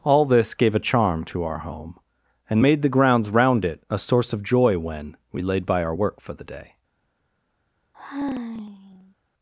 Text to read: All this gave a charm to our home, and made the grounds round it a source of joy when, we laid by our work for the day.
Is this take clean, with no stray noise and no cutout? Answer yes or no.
no